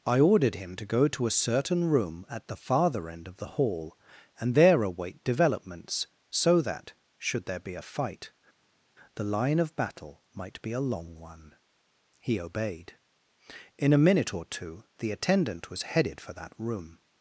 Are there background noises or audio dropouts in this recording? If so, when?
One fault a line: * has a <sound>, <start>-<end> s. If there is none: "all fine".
all fine